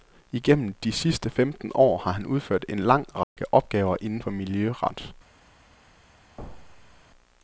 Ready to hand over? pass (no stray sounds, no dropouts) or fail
fail